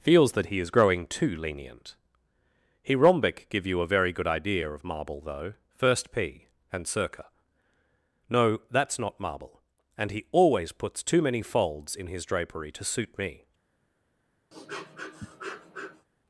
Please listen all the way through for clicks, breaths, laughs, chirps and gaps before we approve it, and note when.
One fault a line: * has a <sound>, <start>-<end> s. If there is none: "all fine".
* has a sniff, 14.5-16.1 s